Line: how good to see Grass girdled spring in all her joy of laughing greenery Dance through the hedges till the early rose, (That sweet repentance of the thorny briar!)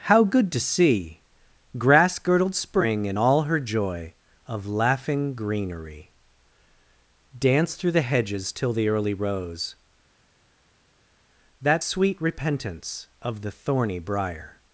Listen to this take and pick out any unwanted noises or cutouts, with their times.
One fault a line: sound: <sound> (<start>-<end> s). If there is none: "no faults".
no faults